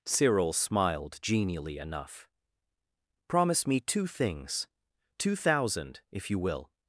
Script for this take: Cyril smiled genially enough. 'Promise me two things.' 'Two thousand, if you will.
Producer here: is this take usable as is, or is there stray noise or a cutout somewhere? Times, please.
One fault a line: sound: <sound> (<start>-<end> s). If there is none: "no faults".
no faults